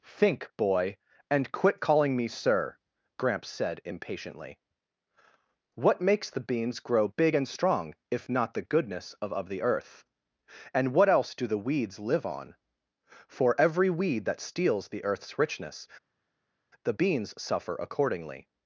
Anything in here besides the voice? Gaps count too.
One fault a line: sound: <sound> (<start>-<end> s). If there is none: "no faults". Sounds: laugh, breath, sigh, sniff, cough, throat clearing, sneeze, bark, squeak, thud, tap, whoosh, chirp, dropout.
no faults